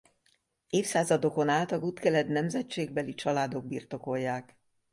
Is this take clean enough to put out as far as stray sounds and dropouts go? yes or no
yes